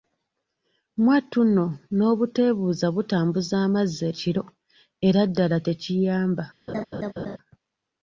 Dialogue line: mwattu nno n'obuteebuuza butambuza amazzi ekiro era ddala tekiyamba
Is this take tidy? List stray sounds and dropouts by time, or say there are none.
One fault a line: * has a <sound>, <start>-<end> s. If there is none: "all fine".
* has a laugh, 6.7-7.4 s